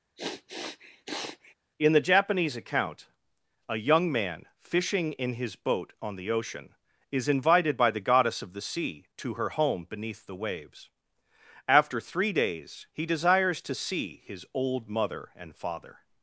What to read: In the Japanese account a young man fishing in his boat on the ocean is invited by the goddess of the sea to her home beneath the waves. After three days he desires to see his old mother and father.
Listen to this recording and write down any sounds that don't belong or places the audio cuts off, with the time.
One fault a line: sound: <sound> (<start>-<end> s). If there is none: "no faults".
sound: sniff (0.2-1.5 s)